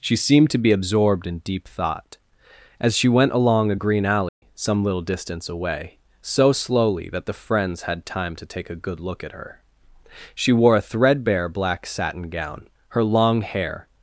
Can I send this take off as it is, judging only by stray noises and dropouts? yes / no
no